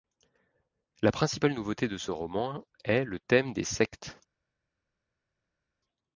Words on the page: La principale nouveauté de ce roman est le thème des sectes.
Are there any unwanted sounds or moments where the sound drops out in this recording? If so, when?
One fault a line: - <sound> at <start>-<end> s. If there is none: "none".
none